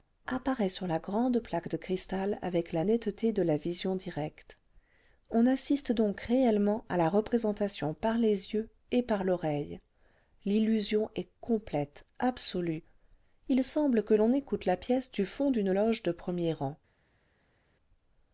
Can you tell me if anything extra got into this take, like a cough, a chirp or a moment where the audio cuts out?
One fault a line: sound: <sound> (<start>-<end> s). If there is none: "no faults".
no faults